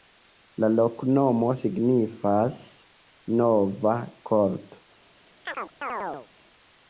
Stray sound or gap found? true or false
true